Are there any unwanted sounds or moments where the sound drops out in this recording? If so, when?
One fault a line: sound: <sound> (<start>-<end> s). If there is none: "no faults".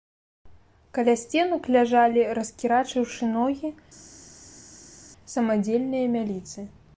no faults